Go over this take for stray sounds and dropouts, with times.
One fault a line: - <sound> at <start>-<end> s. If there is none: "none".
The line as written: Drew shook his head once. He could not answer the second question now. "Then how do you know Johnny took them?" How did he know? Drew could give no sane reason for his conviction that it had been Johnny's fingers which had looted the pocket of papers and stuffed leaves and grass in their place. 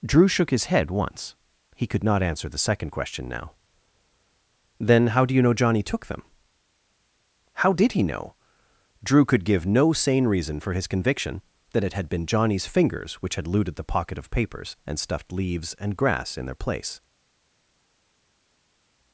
none